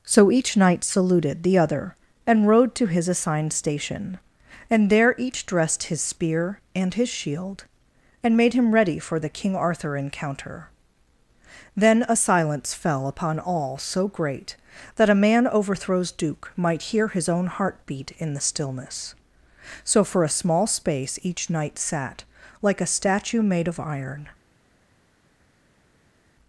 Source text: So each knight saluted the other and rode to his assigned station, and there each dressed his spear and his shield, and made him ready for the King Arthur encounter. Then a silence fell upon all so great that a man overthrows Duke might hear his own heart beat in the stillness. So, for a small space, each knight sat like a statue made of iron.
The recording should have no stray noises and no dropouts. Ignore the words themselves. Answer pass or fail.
pass